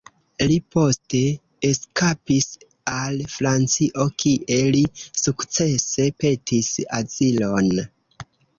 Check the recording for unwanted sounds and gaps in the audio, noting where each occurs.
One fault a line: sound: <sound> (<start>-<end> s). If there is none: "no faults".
no faults